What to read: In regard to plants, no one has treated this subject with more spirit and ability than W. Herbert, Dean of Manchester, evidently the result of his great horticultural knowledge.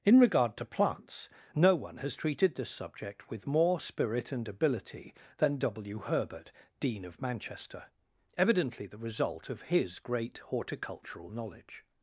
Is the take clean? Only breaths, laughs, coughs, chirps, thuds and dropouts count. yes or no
yes